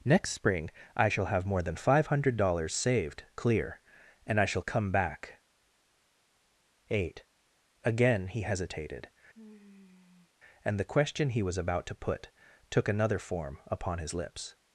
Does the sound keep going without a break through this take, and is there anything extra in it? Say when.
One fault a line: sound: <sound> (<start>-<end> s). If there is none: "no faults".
sound: sigh (9.3-10.3 s)